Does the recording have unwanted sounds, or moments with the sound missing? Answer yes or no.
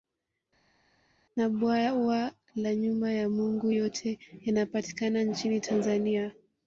no